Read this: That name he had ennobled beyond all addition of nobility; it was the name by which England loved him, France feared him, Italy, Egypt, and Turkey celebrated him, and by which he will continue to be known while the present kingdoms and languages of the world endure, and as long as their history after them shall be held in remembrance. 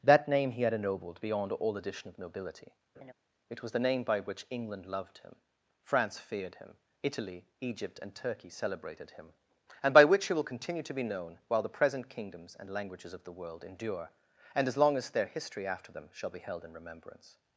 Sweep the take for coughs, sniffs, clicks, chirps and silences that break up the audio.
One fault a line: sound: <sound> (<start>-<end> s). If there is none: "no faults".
sound: laugh (2.9-3.1 s)